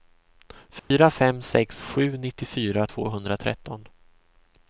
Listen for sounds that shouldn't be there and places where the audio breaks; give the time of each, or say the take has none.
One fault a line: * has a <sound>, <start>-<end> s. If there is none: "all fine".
* has a dropout, 0.8-0.9 s